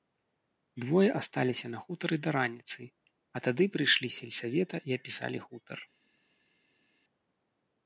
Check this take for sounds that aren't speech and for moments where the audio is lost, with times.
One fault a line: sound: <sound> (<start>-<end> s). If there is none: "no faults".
no faults